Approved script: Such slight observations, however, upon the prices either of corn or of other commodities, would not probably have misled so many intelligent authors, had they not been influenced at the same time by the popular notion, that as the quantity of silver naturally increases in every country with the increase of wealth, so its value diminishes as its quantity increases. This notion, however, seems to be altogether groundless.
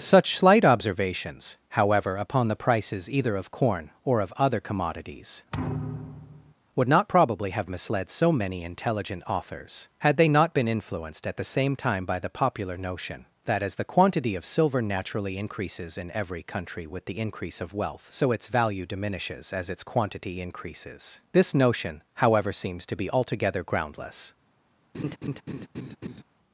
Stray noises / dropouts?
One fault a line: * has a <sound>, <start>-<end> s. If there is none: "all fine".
* has a thud, 5.5-6.5 s
* has a laugh, 24.9-26.2 s